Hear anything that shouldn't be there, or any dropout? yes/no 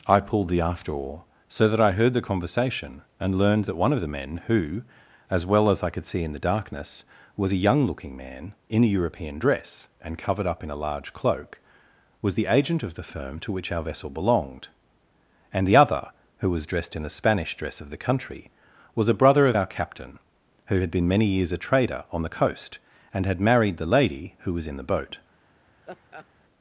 yes